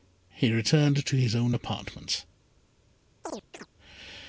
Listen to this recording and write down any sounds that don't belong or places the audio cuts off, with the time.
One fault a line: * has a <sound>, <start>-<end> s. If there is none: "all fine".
* has a chirp, 3.2-3.7 s